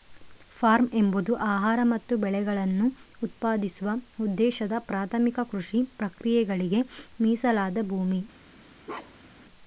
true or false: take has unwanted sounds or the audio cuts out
true